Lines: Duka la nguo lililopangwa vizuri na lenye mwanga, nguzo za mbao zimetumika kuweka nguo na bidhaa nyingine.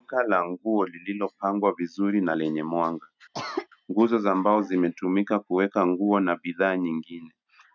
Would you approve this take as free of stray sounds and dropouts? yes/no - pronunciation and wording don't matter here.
no